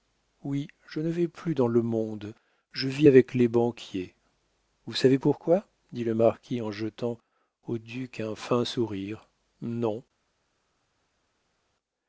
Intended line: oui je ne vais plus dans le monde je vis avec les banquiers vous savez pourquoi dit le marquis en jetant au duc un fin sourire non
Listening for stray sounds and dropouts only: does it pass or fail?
pass